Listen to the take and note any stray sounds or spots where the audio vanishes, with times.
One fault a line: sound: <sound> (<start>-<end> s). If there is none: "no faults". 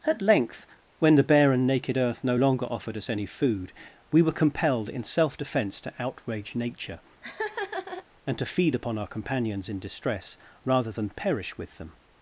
sound: laugh (7.2-8.1 s)